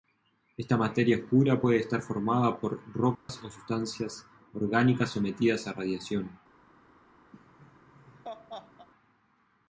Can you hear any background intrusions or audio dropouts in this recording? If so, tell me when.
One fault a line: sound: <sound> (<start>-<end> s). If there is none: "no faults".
sound: dropout (3.1-3.3 s)
sound: laugh (7.3-8.9 s)